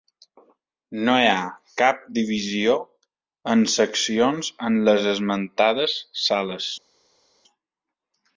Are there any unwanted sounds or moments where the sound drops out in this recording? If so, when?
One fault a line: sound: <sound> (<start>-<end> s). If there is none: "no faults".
no faults